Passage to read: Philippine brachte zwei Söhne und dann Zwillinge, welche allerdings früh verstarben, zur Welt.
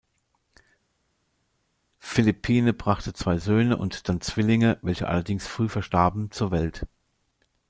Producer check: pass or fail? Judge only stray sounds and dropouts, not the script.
pass